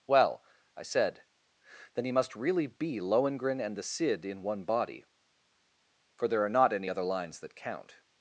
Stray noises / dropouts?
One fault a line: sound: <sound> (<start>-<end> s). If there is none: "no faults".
no faults